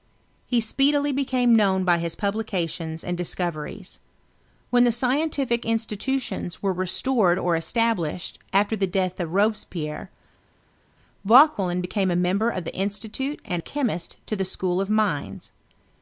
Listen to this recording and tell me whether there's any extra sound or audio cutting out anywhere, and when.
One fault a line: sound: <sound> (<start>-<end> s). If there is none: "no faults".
no faults